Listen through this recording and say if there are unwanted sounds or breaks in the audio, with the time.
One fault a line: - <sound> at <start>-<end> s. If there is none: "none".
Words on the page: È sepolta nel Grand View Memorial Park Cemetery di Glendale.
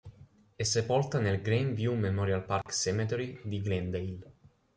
- dropout at 2.6-2.7 s